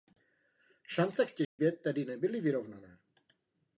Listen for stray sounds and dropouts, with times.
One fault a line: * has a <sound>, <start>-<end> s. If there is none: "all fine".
* has a dropout, 1.4-1.6 s